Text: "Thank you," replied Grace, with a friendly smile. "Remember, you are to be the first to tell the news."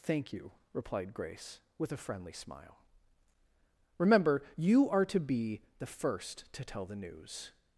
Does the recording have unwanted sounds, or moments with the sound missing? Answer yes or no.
no